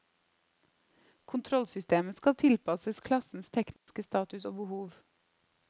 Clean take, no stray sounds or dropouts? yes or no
no